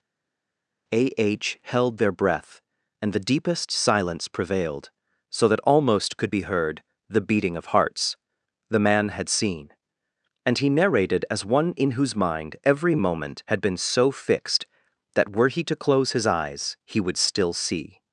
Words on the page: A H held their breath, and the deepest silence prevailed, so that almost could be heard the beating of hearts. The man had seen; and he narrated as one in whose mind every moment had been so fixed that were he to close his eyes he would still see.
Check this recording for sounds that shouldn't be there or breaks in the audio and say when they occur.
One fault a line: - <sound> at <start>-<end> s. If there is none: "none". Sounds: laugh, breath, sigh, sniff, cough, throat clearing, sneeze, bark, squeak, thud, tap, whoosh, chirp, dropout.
none